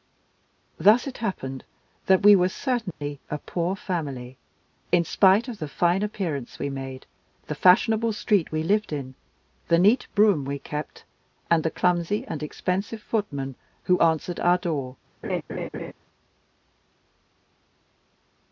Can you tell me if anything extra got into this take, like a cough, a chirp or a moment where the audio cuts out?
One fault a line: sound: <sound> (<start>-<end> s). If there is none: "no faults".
sound: dropout (2.9-3.0 s)
sound: laugh (15.2-15.9 s)